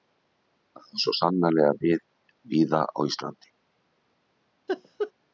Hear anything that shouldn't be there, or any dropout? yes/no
yes